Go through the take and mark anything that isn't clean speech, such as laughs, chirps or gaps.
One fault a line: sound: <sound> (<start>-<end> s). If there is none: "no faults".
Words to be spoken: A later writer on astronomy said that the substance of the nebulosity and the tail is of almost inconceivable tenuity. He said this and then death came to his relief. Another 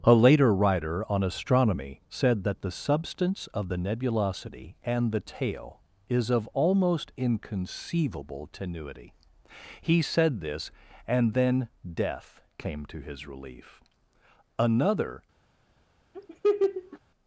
sound: laugh (16.1-17.0 s)